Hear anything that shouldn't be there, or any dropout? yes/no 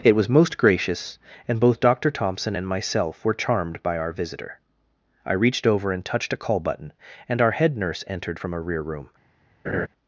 yes